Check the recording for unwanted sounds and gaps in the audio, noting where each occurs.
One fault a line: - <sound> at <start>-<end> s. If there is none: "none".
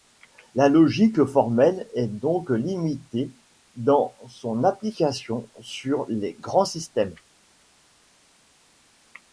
none